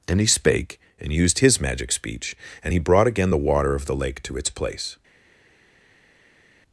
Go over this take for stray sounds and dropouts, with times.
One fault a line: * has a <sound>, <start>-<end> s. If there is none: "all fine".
all fine